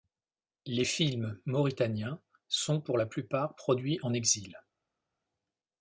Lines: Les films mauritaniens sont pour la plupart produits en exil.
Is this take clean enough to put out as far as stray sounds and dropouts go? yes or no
yes